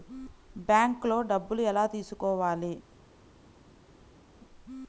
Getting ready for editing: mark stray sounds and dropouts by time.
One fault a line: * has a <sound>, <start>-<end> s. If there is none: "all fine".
all fine